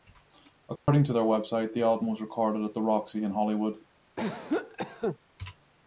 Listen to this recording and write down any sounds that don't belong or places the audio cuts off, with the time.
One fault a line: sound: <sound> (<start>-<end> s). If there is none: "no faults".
sound: dropout (0.8-0.9 s)
sound: cough (4.2-5.2 s)